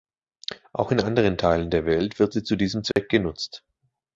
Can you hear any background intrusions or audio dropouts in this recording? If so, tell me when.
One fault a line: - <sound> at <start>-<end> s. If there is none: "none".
- dropout at 2.9-3.0 s